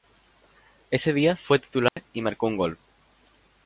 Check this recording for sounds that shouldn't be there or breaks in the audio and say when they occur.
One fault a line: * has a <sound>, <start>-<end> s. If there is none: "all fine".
* has a dropout, 1.9-2.0 s